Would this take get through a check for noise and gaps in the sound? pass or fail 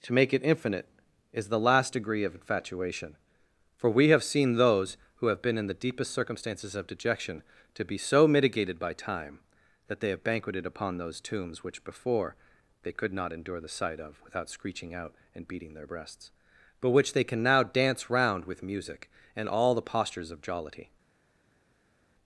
pass